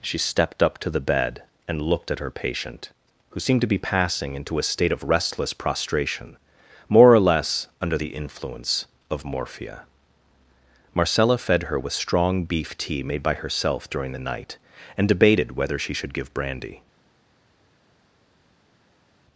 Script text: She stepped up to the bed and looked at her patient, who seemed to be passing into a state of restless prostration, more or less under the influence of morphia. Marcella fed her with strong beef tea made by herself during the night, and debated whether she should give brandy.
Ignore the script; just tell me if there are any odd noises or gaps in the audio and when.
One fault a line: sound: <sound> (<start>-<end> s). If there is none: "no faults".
no faults